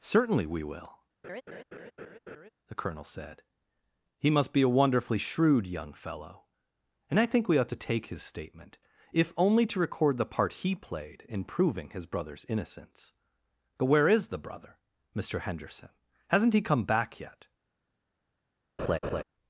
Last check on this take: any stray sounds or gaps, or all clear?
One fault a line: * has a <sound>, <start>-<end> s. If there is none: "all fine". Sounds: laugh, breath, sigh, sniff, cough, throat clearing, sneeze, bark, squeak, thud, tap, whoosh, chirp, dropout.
* has a laugh, 1.2-2.5 s
* has a laugh, 18.8-19.2 s